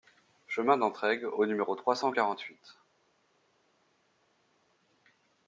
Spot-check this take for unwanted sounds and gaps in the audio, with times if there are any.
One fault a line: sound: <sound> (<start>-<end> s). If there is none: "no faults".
no faults